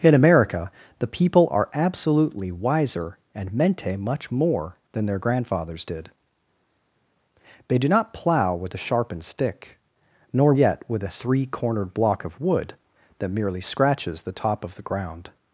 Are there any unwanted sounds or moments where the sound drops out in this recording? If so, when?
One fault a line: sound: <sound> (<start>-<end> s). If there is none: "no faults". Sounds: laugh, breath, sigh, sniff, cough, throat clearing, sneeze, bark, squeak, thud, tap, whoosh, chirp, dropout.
no faults